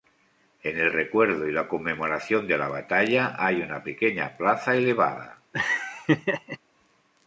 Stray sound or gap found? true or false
true